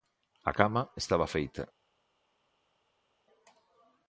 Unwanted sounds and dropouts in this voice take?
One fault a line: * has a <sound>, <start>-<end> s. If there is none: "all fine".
all fine